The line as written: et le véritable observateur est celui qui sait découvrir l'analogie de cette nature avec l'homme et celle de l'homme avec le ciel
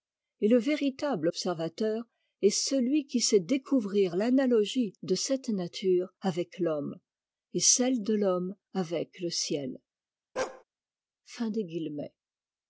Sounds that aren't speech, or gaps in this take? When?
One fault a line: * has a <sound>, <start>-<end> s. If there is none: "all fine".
* has a bark, 10.4-10.6 s